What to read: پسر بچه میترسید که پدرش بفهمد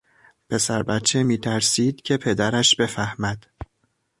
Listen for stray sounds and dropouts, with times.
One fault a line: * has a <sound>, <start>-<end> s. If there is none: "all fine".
all fine